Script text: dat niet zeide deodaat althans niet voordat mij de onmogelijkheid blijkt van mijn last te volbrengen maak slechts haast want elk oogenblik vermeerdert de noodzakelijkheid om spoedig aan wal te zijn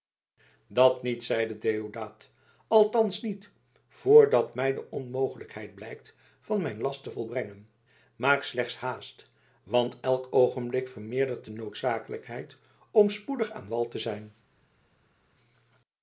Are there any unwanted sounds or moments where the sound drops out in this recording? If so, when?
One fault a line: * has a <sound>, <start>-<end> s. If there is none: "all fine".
all fine